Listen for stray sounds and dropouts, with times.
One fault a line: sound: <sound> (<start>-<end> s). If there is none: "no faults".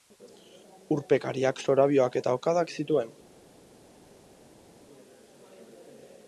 no faults